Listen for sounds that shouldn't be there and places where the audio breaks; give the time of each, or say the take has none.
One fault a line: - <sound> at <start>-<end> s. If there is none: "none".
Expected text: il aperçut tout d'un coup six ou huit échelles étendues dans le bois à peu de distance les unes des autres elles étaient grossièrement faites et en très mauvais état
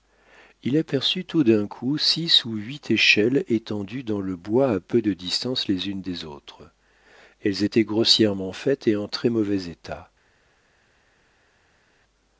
none